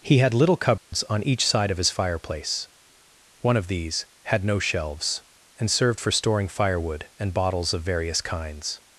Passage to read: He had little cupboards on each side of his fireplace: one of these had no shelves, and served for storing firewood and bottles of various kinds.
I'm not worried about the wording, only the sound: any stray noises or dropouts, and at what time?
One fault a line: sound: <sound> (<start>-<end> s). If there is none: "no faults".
sound: dropout (0.8-0.9 s)